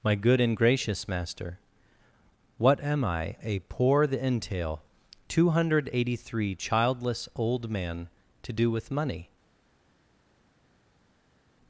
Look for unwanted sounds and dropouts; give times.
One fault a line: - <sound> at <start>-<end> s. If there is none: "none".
none